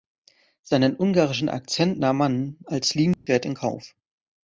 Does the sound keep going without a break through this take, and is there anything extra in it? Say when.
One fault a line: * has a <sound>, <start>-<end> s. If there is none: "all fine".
* has a dropout, 3.1-3.3 s